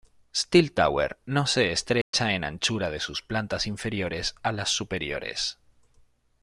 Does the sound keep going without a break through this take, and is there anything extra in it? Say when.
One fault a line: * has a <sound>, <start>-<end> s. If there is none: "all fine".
* has a dropout, 2.0-2.1 s